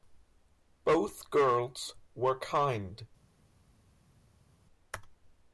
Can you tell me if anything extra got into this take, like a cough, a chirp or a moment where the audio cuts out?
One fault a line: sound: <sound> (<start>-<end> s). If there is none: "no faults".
no faults